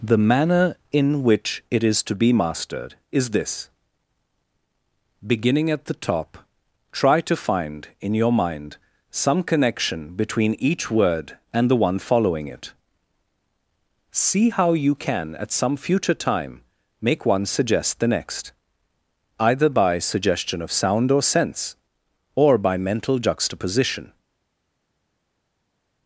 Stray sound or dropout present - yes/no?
no